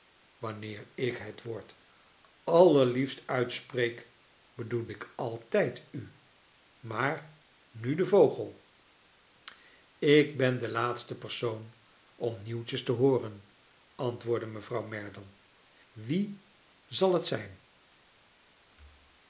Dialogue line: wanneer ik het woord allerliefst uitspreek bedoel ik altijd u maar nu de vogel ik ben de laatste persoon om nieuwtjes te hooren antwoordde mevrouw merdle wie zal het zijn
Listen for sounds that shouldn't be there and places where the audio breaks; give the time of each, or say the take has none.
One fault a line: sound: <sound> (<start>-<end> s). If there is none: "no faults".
no faults